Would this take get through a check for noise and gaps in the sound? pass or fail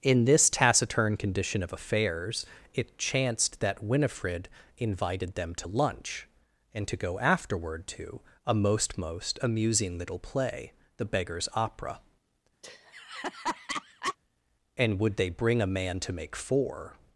fail